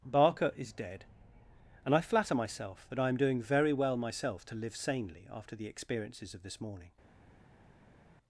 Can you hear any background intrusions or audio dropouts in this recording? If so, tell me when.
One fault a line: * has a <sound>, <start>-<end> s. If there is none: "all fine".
all fine